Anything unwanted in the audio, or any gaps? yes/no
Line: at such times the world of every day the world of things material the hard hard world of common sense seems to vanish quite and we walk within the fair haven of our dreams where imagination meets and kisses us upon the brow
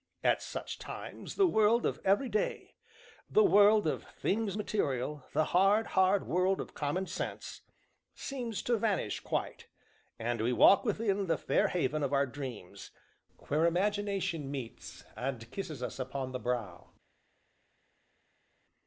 no